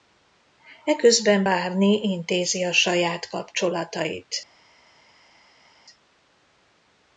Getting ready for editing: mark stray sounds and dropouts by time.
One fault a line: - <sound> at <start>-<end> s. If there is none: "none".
none